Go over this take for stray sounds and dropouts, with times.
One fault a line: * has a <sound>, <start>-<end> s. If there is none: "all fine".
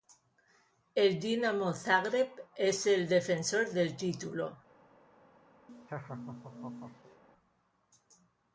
* has a laugh, 5.7-7.2 s